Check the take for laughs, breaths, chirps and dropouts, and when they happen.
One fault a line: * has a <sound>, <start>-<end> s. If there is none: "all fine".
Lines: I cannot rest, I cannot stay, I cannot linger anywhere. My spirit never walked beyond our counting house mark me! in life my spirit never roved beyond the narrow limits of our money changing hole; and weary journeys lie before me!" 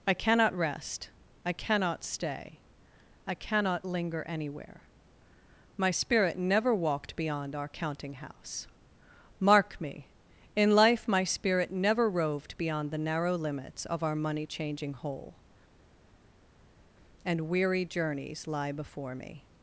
all fine